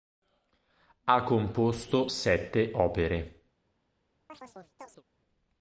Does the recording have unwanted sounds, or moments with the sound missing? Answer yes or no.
yes